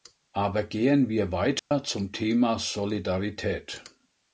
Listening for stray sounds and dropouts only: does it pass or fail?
fail